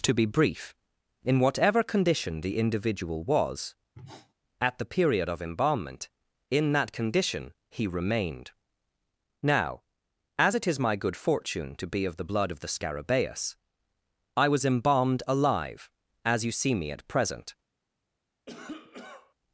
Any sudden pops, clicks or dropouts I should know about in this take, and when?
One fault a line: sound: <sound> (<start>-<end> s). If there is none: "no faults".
sound: sniff (3.9-4.3 s)
sound: cough (18.5-19.3 s)